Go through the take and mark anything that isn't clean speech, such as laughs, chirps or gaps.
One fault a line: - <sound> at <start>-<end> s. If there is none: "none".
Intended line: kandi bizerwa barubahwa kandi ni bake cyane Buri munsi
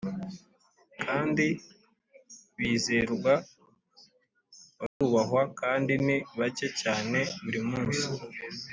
- dropout at 4.9-5.0 s